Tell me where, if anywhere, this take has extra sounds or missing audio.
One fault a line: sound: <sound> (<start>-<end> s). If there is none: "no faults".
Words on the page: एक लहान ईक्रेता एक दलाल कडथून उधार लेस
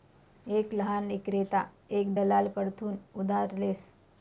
no faults